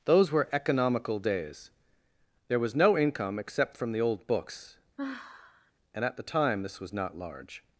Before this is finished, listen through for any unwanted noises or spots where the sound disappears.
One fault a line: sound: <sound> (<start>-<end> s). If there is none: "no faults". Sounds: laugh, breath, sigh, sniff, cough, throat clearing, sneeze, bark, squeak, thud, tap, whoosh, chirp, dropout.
sound: sigh (5.0-5.7 s)